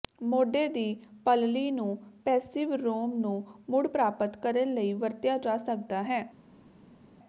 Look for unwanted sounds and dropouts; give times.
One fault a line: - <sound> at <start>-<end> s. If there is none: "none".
none